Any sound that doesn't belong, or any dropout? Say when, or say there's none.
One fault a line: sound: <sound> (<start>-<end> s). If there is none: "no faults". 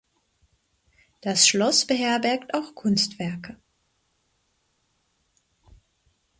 no faults